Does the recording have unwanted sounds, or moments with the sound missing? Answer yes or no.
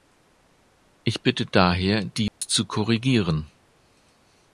yes